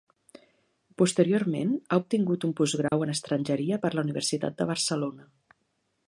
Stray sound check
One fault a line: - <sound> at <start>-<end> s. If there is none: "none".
- dropout at 2.9-2.9 s